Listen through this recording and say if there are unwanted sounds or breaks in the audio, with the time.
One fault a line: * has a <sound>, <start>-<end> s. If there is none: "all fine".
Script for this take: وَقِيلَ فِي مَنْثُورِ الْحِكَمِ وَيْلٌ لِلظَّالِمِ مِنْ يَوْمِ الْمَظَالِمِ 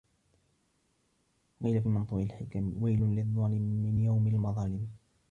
all fine